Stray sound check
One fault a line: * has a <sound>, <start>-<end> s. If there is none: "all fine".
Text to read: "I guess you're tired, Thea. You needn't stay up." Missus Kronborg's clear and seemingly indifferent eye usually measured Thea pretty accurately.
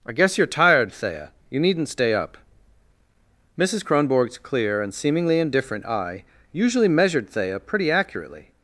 all fine